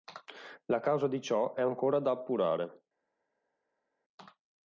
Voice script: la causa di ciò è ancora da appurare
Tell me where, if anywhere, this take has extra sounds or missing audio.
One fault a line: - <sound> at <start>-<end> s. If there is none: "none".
none